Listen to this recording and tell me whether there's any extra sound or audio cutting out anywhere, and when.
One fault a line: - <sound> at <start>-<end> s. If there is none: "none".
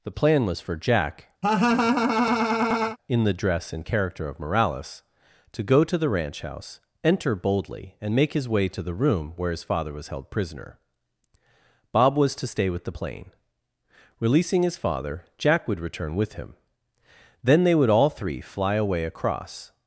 - laugh at 1.4-3.0 s